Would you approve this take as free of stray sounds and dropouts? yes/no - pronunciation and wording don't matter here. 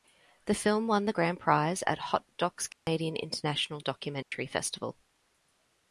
no